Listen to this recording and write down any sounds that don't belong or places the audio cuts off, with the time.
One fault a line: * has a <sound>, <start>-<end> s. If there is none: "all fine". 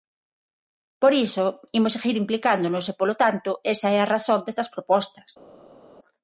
all fine